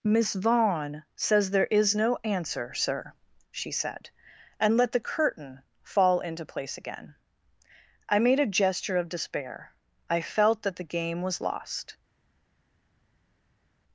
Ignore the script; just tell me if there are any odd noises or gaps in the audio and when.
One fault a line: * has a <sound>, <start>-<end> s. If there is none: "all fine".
all fine